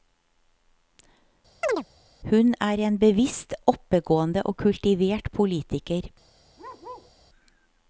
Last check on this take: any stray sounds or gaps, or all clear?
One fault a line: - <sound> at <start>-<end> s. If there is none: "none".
- chirp at 1.6-1.8 s
- bark at 6.6-7.1 s